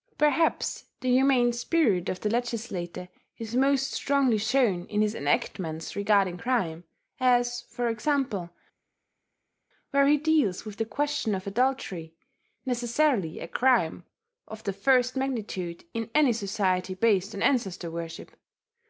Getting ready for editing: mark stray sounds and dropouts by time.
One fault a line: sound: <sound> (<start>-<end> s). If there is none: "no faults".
no faults